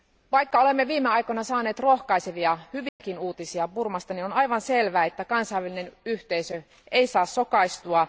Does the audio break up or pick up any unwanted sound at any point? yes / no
yes